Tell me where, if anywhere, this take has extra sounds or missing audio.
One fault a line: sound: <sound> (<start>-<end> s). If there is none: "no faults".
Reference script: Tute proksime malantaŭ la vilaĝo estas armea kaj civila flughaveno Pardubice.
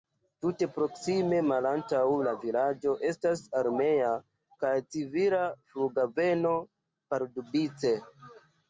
no faults